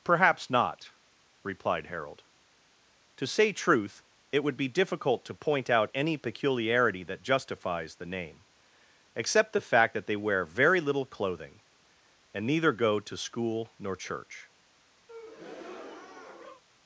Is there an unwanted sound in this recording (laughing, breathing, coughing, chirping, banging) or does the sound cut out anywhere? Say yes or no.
yes